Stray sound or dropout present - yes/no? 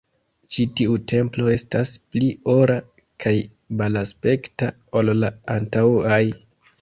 no